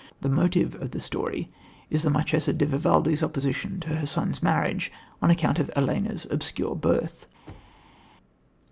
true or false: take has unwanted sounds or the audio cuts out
true